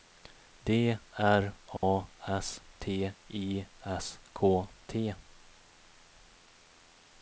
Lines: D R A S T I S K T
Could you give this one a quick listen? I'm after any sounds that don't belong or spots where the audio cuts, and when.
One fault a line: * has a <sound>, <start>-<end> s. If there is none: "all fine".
* has a dropout, 1.8-1.8 s